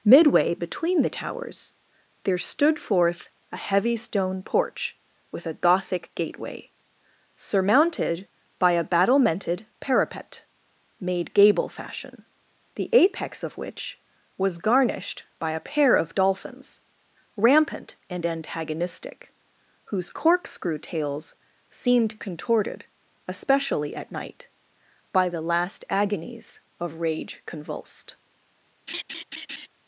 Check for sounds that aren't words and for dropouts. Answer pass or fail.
fail